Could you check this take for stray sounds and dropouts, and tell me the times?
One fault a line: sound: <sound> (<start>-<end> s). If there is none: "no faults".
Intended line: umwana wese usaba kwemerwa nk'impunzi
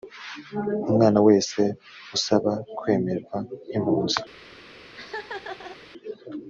sound: laugh (4.9-5.8 s)